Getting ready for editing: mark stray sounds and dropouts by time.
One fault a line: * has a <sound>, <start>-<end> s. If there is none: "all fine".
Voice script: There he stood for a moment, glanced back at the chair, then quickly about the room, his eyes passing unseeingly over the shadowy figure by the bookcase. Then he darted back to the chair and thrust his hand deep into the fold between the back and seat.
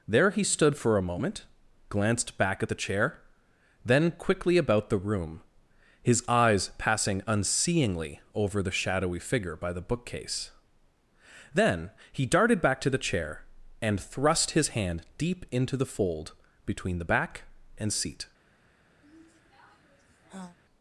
* has a sigh, 19.0-20.6 s